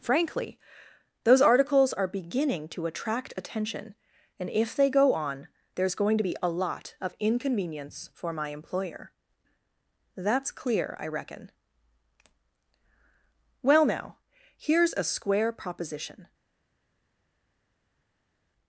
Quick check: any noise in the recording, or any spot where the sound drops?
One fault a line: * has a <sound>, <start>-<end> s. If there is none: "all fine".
all fine